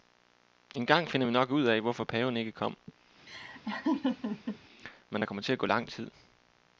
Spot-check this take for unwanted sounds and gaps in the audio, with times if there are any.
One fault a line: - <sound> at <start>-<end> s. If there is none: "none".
- laugh at 3.3-4.6 s